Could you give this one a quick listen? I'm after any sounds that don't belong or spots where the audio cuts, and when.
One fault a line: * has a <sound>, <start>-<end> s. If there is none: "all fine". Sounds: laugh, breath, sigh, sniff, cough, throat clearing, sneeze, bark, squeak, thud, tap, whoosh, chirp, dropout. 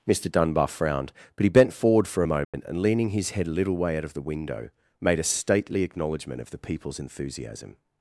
* has a dropout, 2.4-2.5 s